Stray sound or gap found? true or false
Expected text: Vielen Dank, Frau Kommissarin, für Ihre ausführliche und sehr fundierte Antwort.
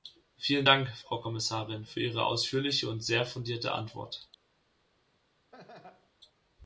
true